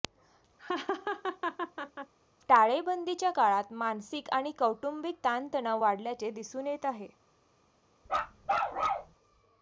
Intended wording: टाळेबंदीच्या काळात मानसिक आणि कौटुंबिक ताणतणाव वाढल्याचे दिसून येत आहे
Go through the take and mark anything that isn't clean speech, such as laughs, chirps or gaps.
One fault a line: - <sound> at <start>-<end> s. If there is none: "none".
- laugh at 0.6-2.1 s
- bark at 8.1-9.1 s